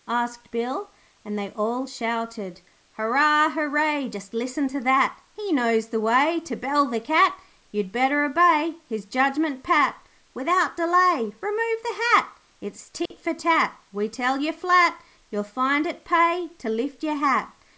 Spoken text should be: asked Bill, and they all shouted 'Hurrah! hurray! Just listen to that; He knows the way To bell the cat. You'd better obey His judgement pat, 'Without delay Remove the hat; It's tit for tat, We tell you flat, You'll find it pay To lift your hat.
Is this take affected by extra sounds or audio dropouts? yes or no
yes